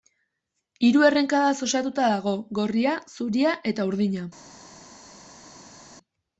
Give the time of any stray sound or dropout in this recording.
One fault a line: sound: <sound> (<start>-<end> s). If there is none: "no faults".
no faults